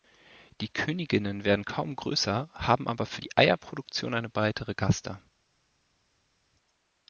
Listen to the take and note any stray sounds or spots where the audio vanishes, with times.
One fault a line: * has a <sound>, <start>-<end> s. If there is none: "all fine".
all fine